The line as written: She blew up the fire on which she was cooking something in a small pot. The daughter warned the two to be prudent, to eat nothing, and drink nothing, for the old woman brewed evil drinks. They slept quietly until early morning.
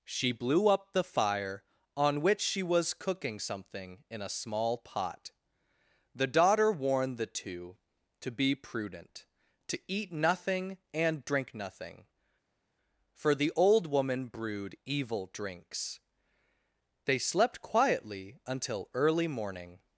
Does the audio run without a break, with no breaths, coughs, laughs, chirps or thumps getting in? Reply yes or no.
yes